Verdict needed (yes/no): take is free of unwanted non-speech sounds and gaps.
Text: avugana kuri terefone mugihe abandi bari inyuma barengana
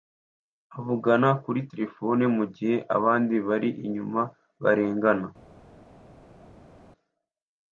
yes